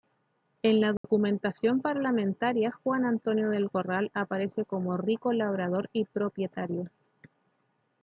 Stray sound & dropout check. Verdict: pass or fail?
fail